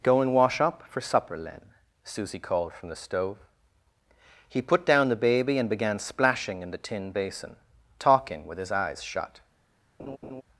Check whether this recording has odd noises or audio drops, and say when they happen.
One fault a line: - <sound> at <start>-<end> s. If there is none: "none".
- laugh at 10.0-10.4 s